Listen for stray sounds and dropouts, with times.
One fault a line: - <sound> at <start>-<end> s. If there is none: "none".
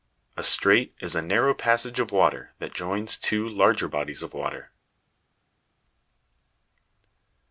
none